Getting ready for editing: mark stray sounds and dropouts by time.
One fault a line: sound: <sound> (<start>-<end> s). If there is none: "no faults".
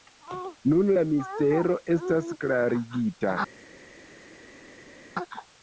no faults